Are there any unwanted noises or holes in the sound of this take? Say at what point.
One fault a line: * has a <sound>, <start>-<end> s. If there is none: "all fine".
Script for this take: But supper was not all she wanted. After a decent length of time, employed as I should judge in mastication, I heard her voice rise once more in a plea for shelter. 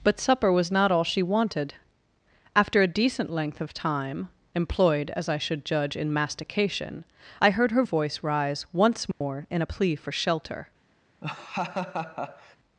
* has a dropout, 9.1-9.2 s
* has a laugh, 11.2-12.6 s